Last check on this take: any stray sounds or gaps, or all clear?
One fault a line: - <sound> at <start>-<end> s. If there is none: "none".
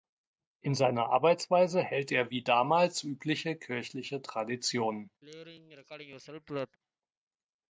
- throat clearing at 5.2-6.8 s